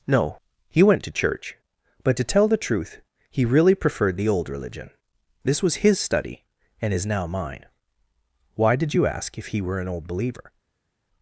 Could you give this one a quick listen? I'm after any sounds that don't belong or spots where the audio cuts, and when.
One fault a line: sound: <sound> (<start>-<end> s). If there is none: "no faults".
no faults